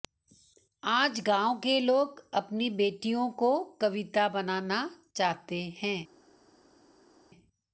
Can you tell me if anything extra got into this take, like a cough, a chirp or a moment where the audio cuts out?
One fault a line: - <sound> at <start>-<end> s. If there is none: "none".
none